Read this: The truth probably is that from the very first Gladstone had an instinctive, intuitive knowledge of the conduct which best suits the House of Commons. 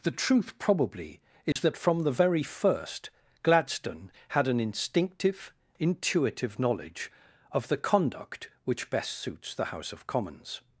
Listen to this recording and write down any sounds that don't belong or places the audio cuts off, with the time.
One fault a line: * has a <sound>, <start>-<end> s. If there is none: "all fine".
* has a dropout, 1.5-1.6 s